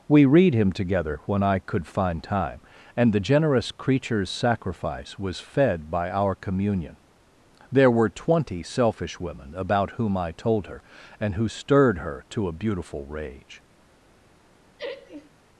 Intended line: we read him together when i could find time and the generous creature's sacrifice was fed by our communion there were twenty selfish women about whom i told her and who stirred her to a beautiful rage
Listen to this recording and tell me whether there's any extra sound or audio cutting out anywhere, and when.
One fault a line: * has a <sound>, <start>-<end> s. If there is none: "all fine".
* has a laugh, 14.8-15.3 s